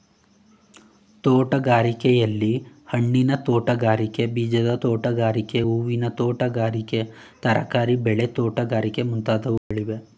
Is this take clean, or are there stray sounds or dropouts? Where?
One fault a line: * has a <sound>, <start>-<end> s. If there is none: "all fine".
* has a dropout, 9.6-9.7 s